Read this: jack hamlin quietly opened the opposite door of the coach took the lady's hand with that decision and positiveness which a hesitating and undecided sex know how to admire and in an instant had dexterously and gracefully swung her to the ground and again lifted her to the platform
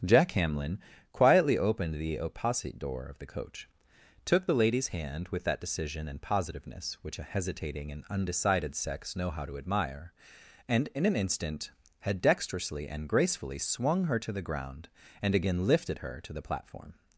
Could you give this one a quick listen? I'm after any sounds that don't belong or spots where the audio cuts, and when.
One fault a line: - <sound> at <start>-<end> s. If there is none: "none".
none